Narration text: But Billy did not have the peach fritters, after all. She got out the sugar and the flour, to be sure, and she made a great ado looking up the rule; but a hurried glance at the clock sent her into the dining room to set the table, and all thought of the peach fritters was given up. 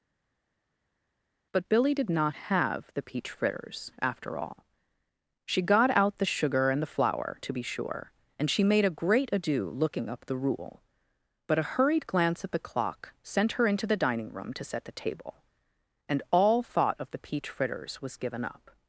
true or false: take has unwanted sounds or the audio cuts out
false